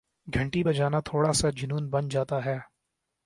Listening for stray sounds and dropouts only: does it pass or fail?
pass